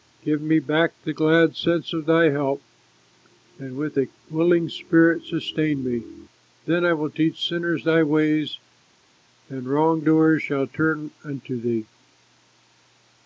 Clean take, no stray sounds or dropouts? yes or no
yes